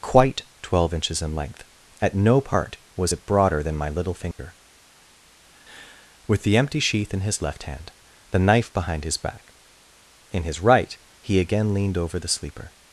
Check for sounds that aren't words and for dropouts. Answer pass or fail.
fail